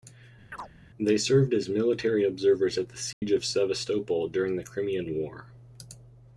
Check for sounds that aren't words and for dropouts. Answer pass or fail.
fail